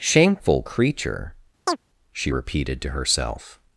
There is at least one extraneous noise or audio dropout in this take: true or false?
true